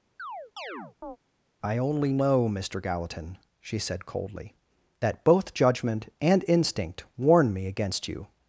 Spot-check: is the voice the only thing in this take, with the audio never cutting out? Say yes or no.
no